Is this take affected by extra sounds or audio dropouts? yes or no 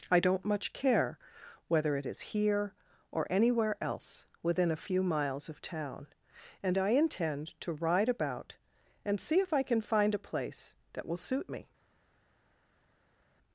no